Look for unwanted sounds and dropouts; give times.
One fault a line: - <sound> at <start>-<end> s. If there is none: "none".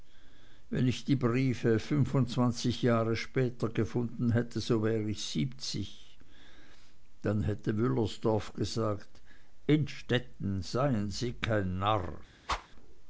- whoosh at 12.5-12.7 s